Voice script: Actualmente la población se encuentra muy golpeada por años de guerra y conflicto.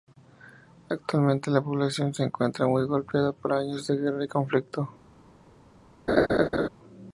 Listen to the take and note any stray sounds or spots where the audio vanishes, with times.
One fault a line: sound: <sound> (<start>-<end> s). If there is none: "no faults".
sound: laugh (6.1-6.7 s)